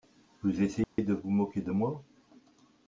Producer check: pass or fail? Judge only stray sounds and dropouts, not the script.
fail